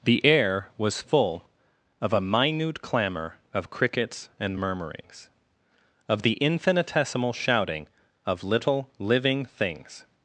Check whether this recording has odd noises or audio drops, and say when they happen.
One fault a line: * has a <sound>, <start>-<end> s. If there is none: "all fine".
all fine